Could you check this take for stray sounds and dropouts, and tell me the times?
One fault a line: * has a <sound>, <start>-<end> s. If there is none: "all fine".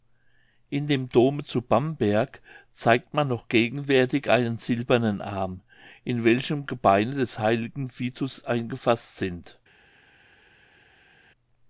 all fine